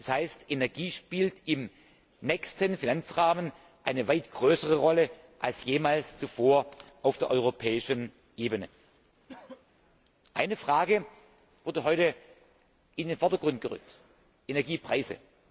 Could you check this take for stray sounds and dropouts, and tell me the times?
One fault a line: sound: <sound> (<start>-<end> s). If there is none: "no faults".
sound: cough (9.3-9.7 s)